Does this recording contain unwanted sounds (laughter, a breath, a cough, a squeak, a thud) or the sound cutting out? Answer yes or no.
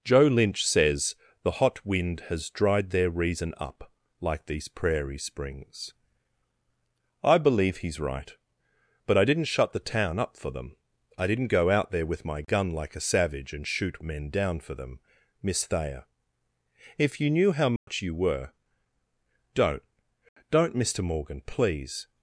yes